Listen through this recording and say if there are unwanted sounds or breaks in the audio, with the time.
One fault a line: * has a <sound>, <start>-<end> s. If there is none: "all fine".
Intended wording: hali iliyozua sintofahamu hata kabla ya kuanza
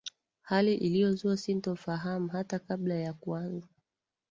all fine